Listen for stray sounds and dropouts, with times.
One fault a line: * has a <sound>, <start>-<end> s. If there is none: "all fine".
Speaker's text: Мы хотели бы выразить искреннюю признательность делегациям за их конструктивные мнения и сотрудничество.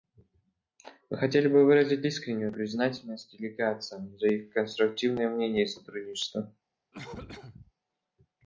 * has a cough, 6.9-7.7 s